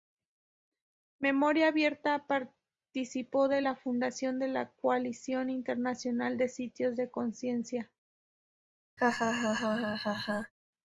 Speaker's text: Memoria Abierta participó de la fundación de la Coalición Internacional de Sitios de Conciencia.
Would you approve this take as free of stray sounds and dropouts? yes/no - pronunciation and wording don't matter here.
no